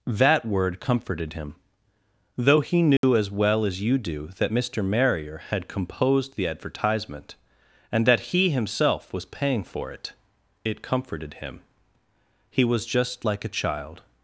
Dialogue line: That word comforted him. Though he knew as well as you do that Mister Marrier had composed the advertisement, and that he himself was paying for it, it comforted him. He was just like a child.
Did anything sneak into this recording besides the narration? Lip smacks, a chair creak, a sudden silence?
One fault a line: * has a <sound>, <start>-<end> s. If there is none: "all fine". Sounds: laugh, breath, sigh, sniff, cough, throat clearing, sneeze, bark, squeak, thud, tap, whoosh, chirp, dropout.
* has a dropout, 3.0-3.0 s